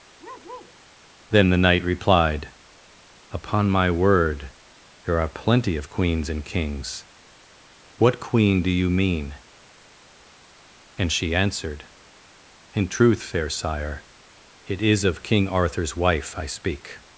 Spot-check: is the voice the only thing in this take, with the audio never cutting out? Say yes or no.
no